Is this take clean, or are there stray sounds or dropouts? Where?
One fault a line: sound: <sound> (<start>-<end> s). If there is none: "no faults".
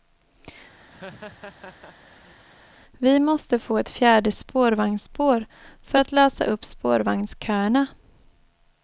sound: laugh (0.9-2.4 s)